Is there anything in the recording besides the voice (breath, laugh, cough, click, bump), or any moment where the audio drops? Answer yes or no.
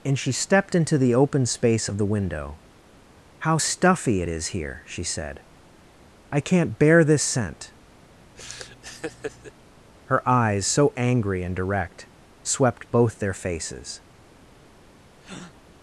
yes